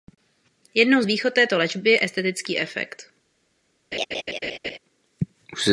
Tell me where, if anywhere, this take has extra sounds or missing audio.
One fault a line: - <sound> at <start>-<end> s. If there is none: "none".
- laugh at 3.9-4.8 s